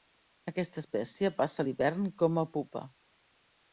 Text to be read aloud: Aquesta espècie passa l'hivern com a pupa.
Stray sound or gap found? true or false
false